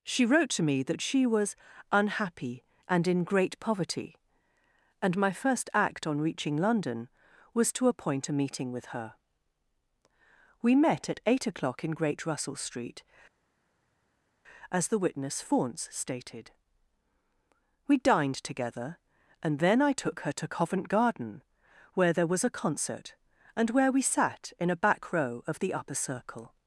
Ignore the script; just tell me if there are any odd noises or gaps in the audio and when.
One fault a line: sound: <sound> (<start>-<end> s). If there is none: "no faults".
no faults